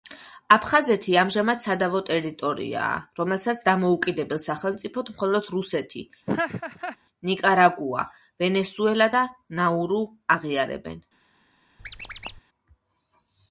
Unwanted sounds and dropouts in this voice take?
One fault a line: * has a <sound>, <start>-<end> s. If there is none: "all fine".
* has a laugh, 6.3-7.0 s
* has a squeak, 11.8-12.4 s